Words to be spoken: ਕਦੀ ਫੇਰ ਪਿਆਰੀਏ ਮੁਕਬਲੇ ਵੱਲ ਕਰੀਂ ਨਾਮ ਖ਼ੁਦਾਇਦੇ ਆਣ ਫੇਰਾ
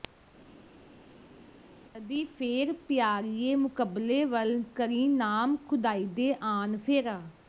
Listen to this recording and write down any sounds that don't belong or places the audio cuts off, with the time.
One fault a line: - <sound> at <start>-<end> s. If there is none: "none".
none